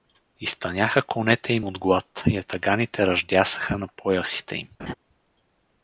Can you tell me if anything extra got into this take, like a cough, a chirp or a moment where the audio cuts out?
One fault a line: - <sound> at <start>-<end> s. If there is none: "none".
- laugh at 4.8-4.9 s